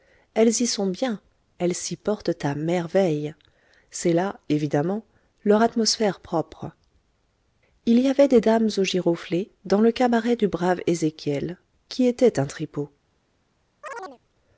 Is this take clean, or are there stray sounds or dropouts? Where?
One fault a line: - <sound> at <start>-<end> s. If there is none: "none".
- chirp at 13.8-14.2 s